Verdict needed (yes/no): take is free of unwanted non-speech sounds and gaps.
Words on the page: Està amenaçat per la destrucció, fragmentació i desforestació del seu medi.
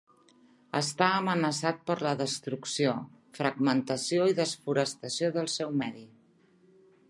yes